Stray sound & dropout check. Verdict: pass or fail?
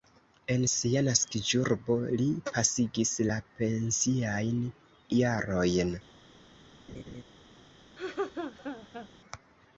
fail